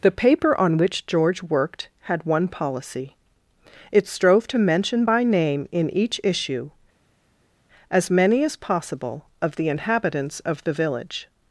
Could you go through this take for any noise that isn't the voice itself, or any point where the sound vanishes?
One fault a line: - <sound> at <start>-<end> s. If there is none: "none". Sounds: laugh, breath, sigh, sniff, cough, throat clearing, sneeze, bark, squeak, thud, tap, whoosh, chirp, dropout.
none